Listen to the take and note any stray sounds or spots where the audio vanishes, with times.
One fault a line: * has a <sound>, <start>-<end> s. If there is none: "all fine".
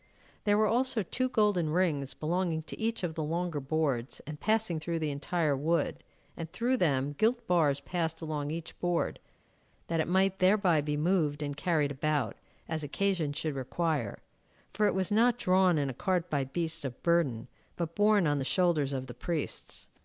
all fine